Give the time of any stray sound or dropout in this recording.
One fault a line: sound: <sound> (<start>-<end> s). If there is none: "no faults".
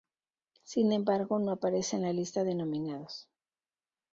no faults